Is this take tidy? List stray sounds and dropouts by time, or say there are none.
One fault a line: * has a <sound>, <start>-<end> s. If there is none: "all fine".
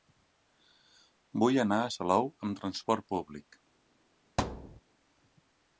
* has a thud, 4.4-4.8 s